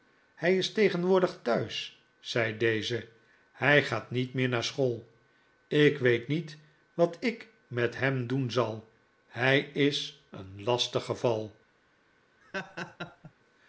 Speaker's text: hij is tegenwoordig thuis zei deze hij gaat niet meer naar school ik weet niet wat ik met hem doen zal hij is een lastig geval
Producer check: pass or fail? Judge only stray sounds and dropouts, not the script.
fail